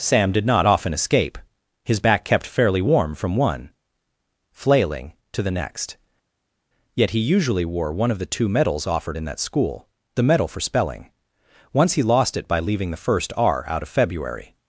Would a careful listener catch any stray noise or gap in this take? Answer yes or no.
no